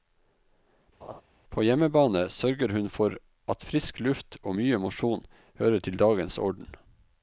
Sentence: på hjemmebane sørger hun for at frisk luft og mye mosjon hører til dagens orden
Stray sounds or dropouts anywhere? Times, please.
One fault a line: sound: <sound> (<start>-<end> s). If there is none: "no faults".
sound: laugh (1.0-1.2 s)